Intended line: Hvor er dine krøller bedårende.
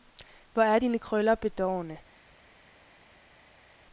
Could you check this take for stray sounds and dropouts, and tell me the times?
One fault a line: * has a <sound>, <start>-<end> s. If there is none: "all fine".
all fine